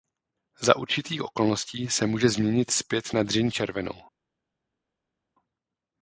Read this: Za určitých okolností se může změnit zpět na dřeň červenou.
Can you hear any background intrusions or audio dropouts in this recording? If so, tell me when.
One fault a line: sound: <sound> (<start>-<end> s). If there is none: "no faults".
no faults